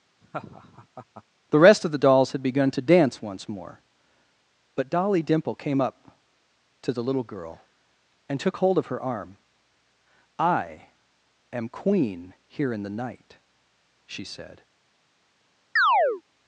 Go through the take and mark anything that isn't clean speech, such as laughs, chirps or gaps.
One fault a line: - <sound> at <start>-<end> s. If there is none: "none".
- laugh at 0.2-1.2 s
- chirp at 15.8-16.2 s